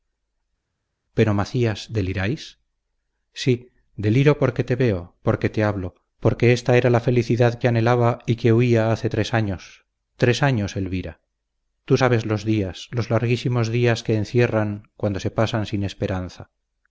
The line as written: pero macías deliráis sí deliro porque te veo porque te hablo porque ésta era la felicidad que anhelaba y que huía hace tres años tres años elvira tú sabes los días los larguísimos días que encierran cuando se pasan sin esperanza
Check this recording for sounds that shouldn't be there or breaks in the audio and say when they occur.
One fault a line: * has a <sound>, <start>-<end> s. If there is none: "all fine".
all fine